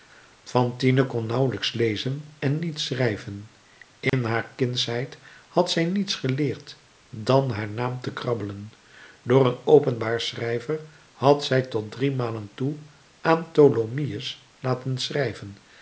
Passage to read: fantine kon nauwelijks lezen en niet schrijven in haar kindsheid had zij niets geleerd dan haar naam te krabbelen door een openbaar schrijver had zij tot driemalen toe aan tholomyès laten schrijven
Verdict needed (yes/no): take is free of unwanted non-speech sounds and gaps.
no